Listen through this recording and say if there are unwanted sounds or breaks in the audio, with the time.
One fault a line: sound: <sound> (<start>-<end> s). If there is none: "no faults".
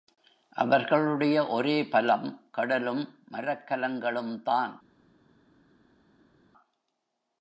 no faults